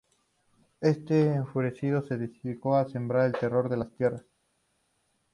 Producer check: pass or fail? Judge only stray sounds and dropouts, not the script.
pass